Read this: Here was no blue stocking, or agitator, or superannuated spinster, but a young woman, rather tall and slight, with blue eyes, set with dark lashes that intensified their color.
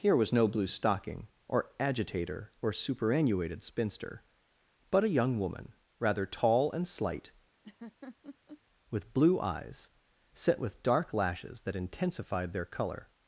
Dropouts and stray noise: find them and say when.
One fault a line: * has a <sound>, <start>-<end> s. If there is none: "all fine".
* has a laugh, 7.6-8.6 s